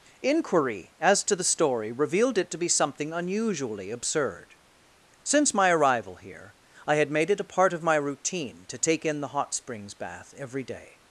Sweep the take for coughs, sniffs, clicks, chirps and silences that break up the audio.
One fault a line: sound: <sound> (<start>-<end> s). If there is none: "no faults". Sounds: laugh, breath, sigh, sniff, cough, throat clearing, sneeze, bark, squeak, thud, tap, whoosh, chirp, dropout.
no faults